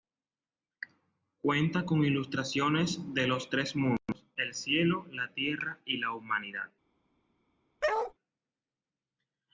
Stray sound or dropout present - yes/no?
yes